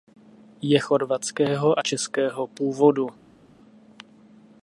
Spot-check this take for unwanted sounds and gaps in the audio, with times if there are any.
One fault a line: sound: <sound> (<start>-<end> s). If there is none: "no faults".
no faults